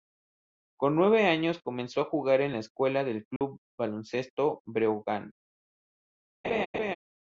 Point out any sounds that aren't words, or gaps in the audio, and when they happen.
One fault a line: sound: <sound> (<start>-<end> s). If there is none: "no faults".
sound: dropout (3.4-3.4 s)
sound: laugh (6.4-7.0 s)